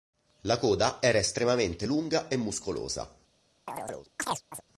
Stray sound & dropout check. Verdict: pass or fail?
fail